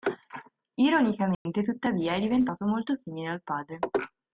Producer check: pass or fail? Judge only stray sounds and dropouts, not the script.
fail